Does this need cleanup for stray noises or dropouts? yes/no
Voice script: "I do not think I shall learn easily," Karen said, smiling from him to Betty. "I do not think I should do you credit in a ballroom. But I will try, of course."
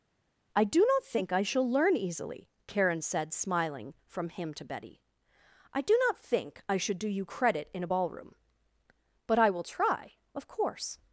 no